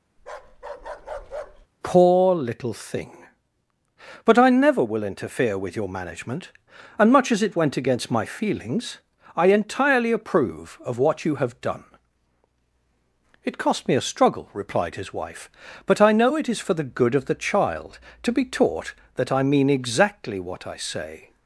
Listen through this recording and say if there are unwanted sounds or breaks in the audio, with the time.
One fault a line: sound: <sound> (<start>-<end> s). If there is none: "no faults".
sound: bark (0.2-1.7 s)